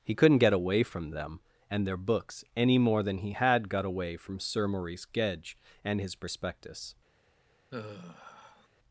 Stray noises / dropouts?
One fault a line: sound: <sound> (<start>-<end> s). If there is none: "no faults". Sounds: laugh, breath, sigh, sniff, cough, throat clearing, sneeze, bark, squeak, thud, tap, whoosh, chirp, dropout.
sound: sigh (7.7-8.7 s)